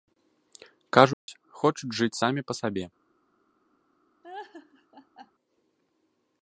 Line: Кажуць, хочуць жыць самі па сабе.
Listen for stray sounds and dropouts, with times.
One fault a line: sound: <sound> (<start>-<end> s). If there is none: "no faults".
sound: dropout (1.1-1.3 s)
sound: laugh (4.2-5.3 s)